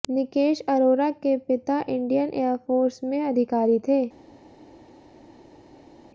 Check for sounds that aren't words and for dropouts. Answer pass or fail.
pass